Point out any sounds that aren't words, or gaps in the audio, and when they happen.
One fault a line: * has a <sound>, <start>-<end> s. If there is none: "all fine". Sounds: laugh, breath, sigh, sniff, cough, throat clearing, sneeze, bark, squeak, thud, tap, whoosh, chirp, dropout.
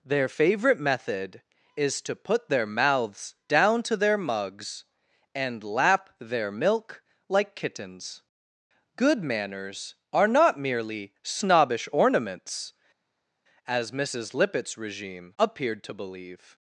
all fine